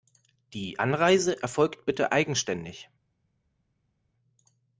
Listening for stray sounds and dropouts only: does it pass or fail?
pass